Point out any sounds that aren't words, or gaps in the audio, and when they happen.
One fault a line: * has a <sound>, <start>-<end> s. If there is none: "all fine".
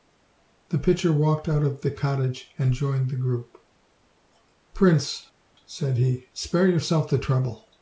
all fine